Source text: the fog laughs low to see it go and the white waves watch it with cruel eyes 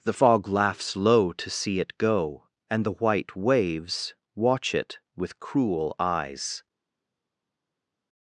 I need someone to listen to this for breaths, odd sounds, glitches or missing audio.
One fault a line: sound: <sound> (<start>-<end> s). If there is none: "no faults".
no faults